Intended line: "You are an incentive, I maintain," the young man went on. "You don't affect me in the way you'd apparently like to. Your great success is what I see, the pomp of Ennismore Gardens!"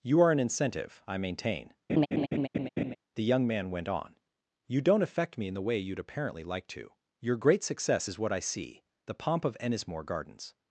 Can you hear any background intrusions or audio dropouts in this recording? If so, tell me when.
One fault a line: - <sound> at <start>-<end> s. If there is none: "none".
- laugh at 1.9-3.0 s